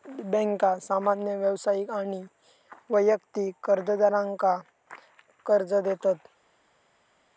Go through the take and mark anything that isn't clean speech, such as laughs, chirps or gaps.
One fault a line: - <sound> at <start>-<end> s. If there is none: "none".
none